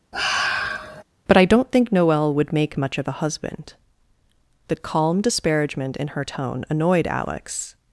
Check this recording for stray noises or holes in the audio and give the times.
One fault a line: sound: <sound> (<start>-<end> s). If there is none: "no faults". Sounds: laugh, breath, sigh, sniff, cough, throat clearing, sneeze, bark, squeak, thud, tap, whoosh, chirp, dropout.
sound: sigh (0.1-1.0 s)